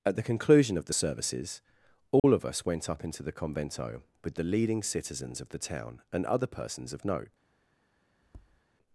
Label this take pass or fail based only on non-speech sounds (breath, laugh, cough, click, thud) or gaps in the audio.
fail